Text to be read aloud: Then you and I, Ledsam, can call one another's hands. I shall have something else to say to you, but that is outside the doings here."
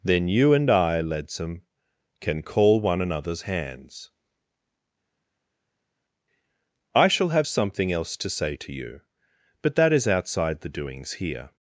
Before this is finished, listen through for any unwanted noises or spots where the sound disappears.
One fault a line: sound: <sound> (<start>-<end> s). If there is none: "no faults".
no faults